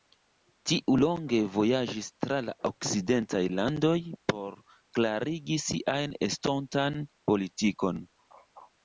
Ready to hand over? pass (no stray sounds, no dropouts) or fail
pass